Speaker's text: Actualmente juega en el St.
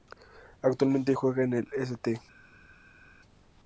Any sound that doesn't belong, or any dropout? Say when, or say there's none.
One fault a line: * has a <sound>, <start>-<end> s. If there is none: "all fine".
all fine